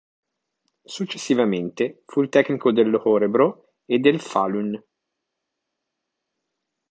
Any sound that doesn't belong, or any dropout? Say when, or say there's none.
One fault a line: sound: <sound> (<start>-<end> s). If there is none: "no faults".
no faults